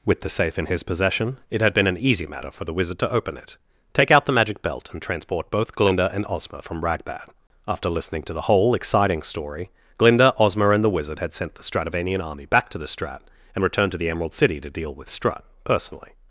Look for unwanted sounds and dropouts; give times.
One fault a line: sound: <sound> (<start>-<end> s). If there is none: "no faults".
no faults